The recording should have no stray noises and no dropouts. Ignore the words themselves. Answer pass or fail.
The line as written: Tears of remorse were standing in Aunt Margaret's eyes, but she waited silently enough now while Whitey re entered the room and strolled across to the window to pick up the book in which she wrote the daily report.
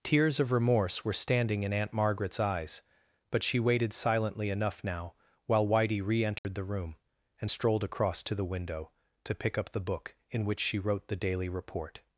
fail